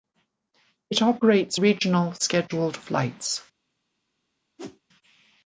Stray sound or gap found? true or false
true